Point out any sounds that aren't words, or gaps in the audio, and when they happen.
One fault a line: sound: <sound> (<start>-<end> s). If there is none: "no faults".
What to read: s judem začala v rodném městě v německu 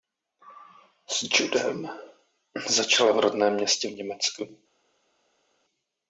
no faults